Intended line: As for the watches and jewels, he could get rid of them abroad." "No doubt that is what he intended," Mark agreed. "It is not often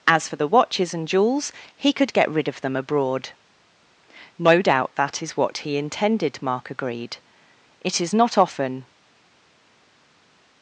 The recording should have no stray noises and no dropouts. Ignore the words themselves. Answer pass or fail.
pass